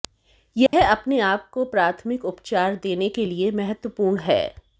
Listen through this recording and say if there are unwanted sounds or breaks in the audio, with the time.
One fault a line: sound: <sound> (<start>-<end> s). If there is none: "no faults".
sound: dropout (0.7-0.7 s)